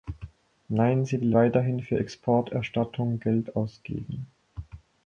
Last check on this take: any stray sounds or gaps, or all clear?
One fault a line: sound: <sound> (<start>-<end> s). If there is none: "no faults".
no faults